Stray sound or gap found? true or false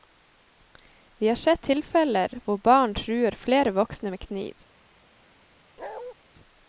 true